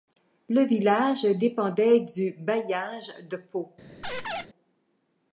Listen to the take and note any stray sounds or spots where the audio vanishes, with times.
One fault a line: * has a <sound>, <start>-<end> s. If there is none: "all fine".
* has a squeak, 4.0-4.5 s